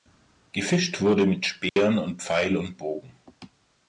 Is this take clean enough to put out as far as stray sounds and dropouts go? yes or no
no